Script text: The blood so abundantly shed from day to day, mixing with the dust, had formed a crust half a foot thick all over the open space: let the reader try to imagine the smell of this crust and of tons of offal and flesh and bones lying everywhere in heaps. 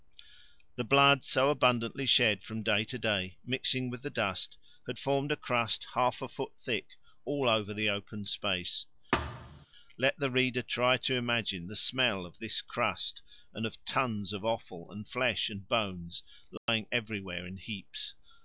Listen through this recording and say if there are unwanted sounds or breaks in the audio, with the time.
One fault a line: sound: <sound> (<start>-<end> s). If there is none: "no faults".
sound: thud (9.1-9.7 s)
sound: dropout (16.6-16.7 s)